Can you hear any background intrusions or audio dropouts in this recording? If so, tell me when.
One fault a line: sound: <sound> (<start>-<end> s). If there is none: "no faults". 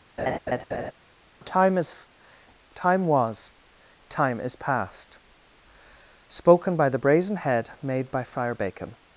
sound: laugh (0.2-0.9 s)